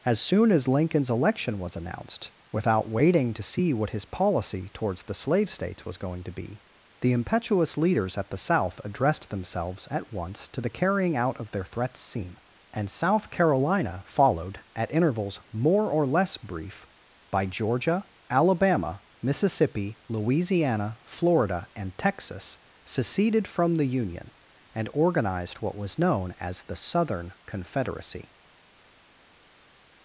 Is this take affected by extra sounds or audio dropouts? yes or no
no